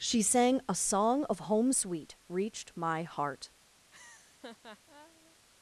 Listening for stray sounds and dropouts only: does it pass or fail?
fail